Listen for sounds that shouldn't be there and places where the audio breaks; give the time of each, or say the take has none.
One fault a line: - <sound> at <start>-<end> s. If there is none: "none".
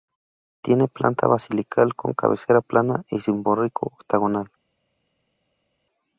none